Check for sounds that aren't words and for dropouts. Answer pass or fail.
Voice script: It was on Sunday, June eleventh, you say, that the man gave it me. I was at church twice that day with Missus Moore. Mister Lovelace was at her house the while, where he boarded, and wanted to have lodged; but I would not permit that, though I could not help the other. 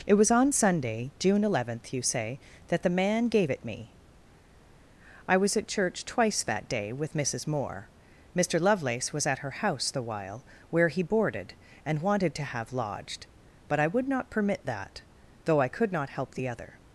pass